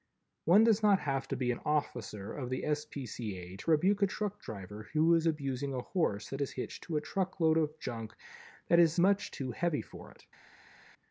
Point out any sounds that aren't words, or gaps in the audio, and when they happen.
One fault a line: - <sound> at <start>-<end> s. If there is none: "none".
none